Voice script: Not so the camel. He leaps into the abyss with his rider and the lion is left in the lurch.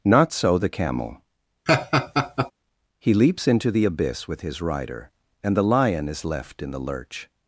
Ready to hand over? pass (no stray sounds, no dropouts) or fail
fail